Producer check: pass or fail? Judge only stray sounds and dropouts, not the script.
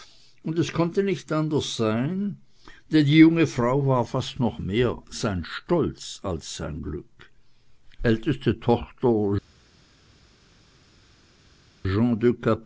pass